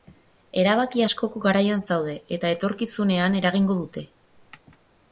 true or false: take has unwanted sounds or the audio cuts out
false